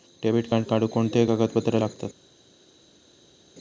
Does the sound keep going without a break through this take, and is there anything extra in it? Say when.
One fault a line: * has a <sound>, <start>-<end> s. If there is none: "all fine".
all fine